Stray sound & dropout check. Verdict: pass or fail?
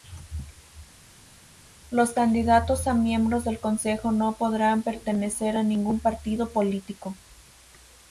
pass